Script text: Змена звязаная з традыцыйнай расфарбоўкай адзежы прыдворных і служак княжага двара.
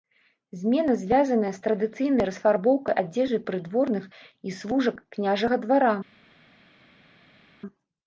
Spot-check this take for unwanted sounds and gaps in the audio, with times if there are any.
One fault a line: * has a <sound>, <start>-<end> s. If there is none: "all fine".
all fine